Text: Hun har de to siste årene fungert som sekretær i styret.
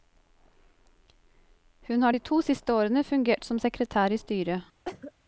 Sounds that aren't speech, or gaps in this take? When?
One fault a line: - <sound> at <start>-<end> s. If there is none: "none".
- cough at 4.8-5.1 s